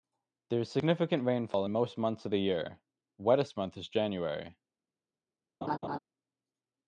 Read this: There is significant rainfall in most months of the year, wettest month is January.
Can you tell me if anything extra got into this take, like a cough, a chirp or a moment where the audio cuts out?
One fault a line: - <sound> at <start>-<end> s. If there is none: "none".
- laugh at 5.6-6.0 s